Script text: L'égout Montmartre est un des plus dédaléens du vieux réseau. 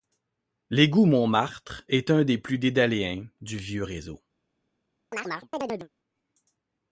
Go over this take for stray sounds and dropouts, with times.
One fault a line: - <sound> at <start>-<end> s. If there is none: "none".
- chirp at 5.1-5.9 s